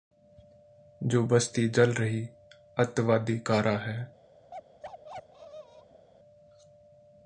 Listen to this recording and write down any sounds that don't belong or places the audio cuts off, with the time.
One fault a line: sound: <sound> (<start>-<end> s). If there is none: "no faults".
sound: bark (4.5-6.1 s)